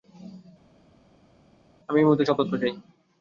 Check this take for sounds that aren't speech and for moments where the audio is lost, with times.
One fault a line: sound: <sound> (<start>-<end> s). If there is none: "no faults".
no faults